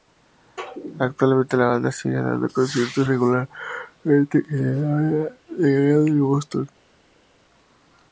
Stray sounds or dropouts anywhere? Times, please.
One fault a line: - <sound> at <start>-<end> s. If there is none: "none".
none